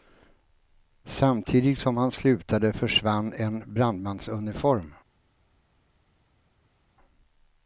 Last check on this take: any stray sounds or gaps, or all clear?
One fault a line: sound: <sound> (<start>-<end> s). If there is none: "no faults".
no faults